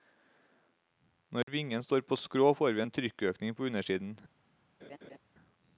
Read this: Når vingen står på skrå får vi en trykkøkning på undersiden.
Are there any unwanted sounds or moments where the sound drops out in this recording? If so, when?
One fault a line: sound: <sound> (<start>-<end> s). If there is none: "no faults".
sound: dropout (1.4-1.5 s)
sound: laugh (4.8-5.2 s)